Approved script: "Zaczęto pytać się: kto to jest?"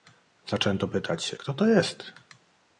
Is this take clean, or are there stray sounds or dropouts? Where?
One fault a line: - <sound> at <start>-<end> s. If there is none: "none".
none